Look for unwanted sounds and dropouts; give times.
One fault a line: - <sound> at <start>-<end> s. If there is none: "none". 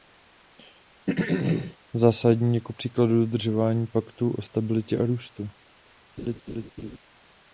- throat clearing at 1.1-1.8 s
- laugh at 6.2-7.0 s